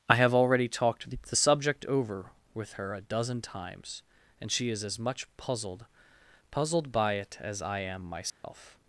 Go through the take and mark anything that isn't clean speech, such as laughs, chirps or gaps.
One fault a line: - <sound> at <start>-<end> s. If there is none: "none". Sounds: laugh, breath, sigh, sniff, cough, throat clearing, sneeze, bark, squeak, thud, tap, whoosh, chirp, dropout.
- dropout at 8.3-8.4 s